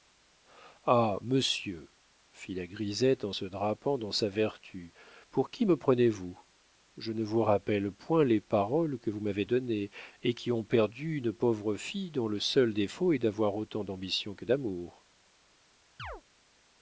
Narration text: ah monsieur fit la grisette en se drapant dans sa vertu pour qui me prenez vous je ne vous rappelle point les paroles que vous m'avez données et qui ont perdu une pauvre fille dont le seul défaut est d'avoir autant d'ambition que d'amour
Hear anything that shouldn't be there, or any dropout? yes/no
yes